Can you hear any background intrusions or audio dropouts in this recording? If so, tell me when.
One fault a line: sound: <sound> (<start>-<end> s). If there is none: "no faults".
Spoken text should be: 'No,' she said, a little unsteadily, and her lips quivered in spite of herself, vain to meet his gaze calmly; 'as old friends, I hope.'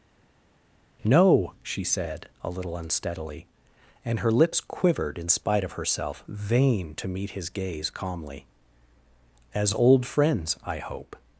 no faults